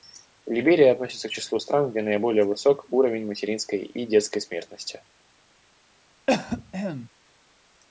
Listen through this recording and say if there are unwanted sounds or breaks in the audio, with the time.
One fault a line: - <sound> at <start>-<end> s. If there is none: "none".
- cough at 6.3-7.1 s